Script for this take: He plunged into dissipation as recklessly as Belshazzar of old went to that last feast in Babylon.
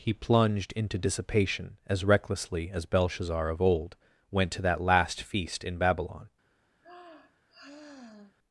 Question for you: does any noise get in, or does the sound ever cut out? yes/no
yes